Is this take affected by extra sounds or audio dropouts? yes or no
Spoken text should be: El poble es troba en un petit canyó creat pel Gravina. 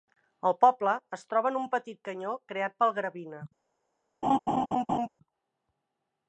yes